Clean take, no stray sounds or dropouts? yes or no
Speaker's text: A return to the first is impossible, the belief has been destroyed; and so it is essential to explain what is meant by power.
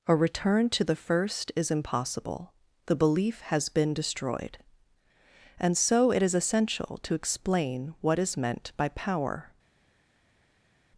yes